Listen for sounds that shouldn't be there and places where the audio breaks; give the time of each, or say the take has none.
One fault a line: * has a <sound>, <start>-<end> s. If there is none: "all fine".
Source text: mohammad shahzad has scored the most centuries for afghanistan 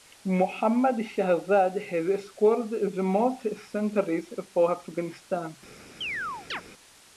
* has a chirp, 6.0-6.6 s